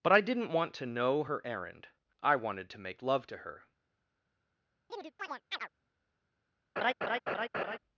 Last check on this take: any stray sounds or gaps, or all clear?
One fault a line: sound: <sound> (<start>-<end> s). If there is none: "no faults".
sound: chirp (4.9-5.7 s)
sound: laugh (6.8-7.8 s)